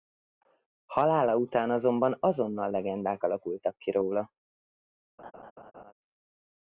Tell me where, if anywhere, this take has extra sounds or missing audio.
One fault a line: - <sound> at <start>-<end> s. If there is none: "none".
- laugh at 5.2-5.9 s